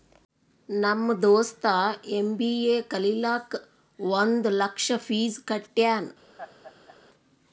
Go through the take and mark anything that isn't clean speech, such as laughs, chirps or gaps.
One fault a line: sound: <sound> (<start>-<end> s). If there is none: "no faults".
sound: laugh (6.4-7.0 s)